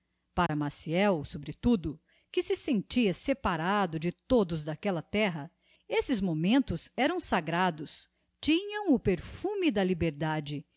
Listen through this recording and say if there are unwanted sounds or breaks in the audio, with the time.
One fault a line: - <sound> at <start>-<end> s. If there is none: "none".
- dropout at 0.5-0.5 s